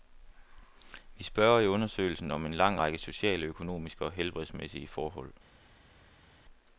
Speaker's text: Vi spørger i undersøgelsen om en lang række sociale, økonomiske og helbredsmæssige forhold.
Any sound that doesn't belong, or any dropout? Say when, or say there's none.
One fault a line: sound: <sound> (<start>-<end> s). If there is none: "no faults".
no faults